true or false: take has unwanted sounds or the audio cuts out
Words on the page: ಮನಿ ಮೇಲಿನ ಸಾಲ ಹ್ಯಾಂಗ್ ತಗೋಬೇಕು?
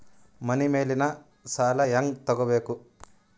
false